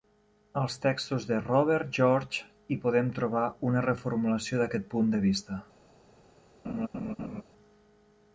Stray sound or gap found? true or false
true